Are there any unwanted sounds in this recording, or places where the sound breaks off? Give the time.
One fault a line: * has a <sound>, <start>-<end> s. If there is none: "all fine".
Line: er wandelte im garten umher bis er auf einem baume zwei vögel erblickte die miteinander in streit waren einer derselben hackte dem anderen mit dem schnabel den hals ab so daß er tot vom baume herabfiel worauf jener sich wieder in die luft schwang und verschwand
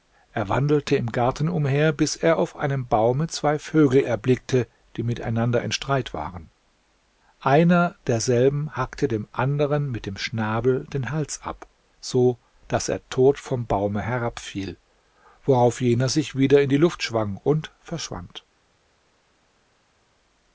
all fine